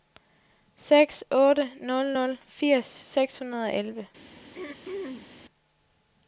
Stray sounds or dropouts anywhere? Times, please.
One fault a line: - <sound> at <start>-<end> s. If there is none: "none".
- throat clearing at 4.5-5.4 s